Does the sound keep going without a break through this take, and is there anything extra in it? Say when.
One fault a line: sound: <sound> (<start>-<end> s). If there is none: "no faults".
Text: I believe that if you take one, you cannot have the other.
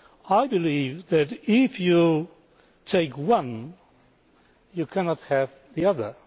no faults